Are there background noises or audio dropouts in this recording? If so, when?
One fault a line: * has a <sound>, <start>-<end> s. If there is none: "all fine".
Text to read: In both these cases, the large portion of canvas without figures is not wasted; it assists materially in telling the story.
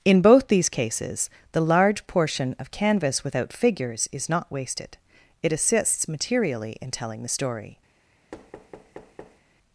* has a thud, 8.3-9.4 s